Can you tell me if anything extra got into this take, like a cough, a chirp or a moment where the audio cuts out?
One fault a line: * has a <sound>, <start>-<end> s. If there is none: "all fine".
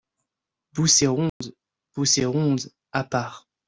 * has a dropout, 1.3-1.4 s